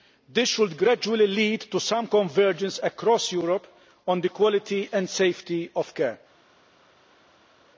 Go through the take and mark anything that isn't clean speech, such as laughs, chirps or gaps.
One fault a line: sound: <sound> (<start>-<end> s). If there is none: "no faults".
no faults